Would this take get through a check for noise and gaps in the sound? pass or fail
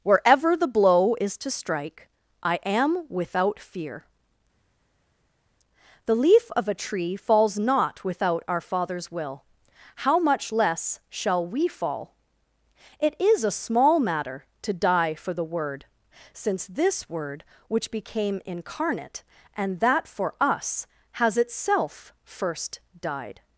pass